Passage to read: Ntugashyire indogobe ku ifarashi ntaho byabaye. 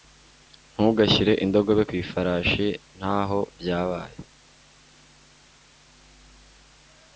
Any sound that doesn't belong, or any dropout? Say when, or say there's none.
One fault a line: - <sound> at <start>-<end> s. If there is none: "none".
none